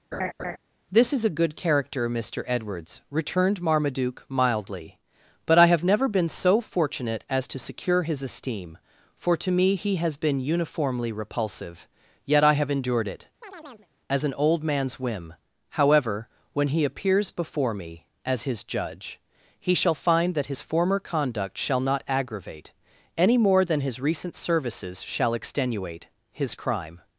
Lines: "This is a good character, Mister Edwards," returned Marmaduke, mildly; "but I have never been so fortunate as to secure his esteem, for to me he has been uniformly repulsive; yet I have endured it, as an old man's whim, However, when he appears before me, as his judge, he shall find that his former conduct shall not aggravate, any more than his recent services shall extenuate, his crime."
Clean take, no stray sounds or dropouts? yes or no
no